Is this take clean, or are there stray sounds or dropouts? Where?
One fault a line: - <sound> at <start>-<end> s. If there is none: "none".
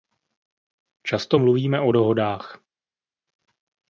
none